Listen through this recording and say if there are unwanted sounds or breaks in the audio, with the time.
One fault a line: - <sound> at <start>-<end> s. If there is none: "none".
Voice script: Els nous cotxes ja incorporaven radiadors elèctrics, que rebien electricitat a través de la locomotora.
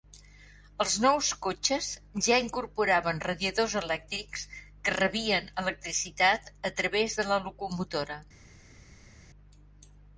none